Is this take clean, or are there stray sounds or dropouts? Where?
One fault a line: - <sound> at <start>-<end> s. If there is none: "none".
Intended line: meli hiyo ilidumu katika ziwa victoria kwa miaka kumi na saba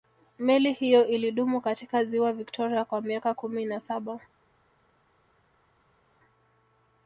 none